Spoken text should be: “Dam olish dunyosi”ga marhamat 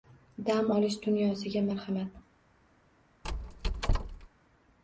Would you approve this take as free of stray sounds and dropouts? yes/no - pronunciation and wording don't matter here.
no